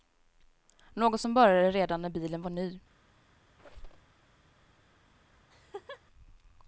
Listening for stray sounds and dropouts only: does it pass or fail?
fail